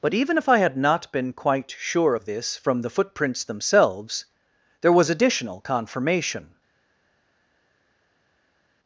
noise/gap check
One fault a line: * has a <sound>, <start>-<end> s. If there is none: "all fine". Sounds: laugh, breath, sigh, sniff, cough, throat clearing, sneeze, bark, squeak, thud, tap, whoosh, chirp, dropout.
all fine